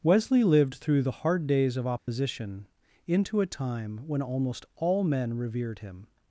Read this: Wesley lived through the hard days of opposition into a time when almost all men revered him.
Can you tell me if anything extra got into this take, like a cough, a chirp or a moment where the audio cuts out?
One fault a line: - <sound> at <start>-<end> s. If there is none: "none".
- dropout at 2.0-2.1 s